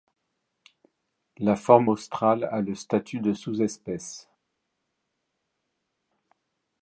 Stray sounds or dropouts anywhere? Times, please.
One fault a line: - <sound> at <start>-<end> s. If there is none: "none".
none